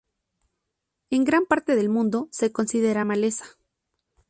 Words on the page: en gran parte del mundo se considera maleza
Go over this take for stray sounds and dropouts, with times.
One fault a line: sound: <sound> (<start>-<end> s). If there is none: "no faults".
no faults